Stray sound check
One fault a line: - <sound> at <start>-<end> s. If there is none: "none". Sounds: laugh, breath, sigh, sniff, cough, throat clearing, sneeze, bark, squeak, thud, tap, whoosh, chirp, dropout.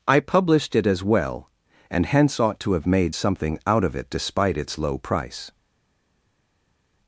none